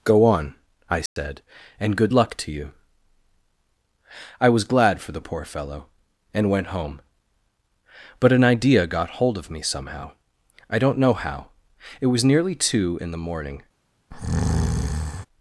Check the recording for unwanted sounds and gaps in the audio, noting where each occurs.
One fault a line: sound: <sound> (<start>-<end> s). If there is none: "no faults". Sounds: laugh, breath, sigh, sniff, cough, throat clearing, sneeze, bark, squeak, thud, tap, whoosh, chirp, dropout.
sound: dropout (1.1-1.2 s)
sound: breath (14.1-15.3 s)